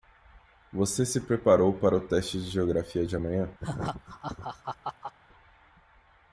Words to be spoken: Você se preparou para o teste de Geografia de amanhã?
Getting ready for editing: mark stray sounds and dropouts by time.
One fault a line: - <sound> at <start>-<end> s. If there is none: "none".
- laugh at 3.6-5.1 s